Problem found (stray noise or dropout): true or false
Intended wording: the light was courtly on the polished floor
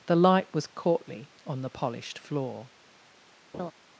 true